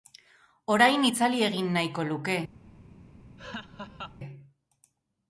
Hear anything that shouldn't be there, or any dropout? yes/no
yes